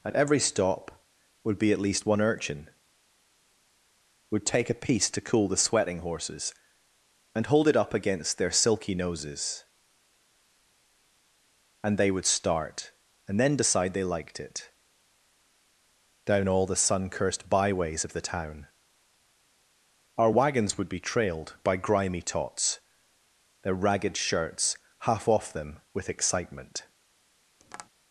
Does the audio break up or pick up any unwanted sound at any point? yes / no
yes